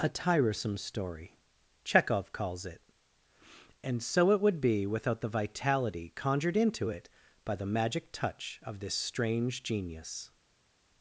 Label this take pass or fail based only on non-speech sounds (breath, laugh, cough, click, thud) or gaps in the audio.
pass